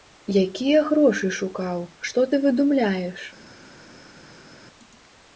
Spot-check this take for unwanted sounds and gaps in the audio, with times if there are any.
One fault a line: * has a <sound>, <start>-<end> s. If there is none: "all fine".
all fine